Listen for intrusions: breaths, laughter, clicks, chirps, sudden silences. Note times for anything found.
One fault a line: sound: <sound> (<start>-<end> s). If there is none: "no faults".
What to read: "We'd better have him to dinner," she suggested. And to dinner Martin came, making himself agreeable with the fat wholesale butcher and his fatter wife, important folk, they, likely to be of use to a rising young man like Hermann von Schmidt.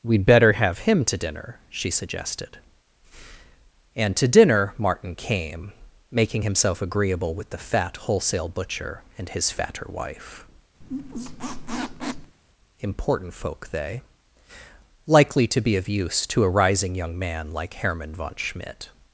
sound: squeak (10.8-12.4 s)